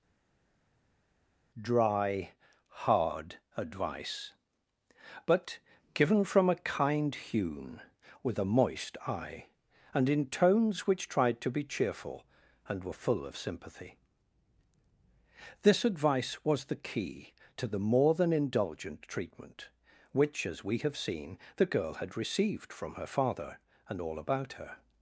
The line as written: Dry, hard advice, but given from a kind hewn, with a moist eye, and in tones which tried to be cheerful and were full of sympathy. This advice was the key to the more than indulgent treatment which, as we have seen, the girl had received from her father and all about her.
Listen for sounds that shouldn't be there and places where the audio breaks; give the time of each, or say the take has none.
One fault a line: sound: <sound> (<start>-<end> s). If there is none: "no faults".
no faults